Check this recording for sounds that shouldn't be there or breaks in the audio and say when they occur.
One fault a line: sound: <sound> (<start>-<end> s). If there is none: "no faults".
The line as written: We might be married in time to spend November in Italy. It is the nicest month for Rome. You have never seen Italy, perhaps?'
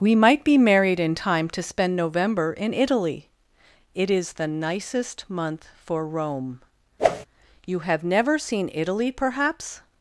sound: whoosh (7.0-7.3 s)